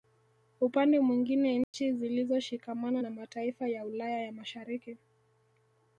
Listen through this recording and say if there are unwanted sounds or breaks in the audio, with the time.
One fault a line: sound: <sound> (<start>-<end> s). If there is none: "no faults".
sound: dropout (1.6-1.7 s)